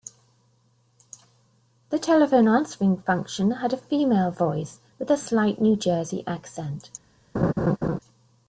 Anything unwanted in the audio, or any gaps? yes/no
yes